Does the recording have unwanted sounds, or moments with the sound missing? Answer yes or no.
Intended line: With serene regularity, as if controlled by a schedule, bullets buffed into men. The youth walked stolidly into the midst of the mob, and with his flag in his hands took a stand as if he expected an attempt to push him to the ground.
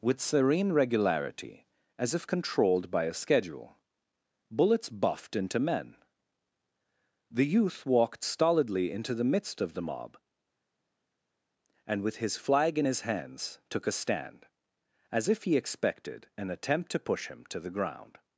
no